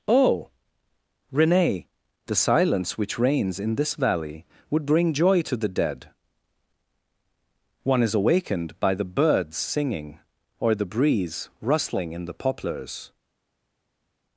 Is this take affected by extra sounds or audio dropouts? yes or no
no